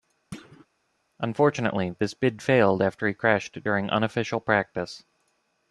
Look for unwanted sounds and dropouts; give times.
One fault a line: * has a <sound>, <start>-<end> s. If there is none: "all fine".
* has a thud, 0.3-0.7 s